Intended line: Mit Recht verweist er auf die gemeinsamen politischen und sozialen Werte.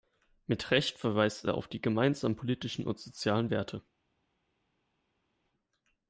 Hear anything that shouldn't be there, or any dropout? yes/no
no